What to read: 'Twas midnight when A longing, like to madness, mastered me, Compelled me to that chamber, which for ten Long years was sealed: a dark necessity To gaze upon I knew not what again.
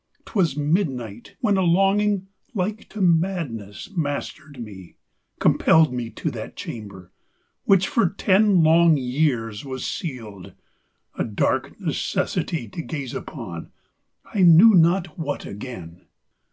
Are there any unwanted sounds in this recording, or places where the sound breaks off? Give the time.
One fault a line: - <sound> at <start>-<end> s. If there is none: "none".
none